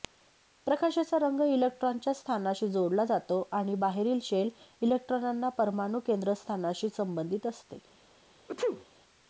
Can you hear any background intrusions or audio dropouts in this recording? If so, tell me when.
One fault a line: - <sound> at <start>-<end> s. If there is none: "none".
- sneeze at 8.5-8.9 s